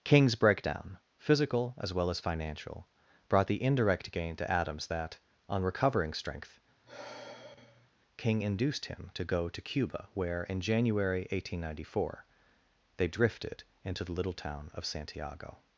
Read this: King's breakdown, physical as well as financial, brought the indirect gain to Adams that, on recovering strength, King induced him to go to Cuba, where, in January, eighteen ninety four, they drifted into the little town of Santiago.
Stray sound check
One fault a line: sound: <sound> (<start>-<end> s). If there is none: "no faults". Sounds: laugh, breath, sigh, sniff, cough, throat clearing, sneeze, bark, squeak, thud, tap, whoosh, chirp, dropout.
sound: sigh (6.8-7.9 s)